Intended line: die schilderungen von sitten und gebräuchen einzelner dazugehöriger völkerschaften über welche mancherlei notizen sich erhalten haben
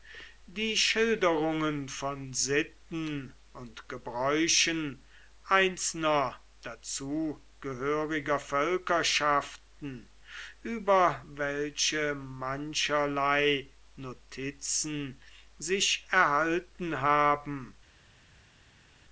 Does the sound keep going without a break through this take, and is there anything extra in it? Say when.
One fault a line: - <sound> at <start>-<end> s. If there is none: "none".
none